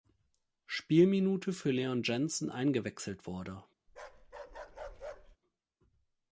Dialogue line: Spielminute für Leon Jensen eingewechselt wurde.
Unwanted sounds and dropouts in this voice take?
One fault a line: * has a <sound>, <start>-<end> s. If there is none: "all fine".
* has a bark, 3.9-5.4 s